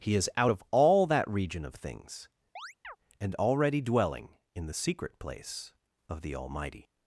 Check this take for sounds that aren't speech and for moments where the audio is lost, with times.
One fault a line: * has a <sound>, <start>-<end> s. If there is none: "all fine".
* has a chirp, 2.6-3.0 s